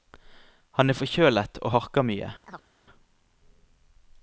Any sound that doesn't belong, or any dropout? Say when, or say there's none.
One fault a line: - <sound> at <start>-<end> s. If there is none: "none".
- chirp at 2.4-2.7 s